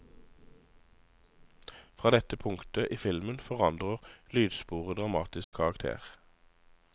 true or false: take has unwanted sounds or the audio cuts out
true